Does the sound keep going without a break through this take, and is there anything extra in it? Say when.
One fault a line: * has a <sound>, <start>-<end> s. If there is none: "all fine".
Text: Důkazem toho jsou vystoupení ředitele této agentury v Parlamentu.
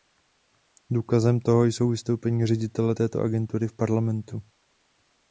all fine